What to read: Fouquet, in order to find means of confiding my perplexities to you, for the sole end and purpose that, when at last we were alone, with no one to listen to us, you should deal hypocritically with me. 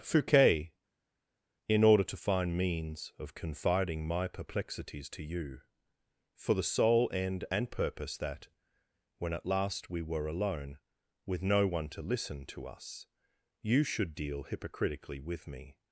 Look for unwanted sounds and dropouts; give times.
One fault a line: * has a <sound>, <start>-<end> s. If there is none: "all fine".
all fine